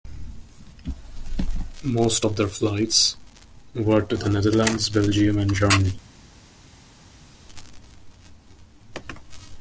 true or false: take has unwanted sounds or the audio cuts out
false